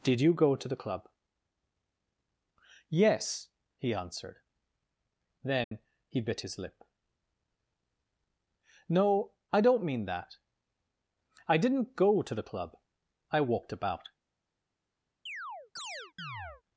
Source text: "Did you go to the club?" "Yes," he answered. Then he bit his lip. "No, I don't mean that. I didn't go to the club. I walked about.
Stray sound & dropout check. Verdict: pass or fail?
fail